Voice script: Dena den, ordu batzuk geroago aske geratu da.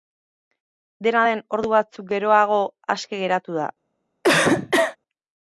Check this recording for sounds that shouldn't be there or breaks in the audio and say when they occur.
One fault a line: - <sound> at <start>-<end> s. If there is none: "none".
- cough at 4.2-5.0 s